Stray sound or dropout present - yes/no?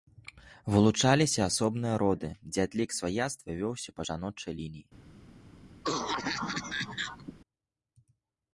yes